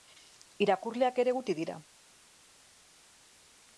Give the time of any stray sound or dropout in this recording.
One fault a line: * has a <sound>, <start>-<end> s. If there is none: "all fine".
all fine